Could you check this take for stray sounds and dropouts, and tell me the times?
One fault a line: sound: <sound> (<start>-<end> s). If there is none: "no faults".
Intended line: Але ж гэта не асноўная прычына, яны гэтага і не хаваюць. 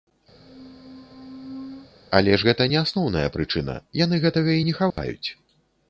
sound: squeak (0.3-1.9 s)
sound: dropout (4.9-5.0 s)